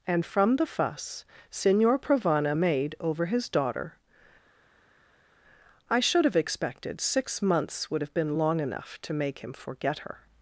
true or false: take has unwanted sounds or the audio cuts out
false